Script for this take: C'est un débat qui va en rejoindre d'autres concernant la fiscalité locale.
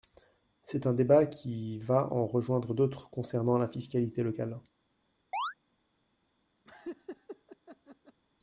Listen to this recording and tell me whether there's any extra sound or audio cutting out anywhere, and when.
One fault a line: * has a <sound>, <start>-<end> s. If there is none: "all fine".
* has a chirp, 5.3-5.5 s
* has a laugh, 6.6-8.2 s